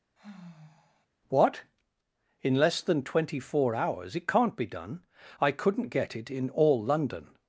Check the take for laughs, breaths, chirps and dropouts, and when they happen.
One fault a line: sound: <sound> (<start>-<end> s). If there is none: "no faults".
sound: sigh (0.2-1.1 s)